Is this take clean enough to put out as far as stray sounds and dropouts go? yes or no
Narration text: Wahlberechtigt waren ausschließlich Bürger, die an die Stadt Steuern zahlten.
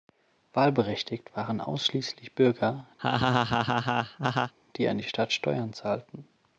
no